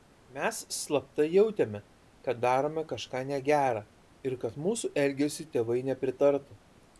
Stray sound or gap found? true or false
false